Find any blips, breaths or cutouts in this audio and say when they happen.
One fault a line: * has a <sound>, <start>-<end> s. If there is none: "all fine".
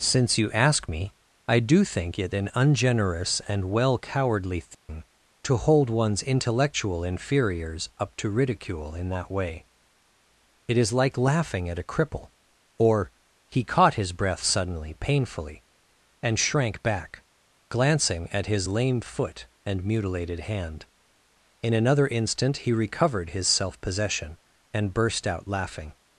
* has a dropout, 4.7-4.9 s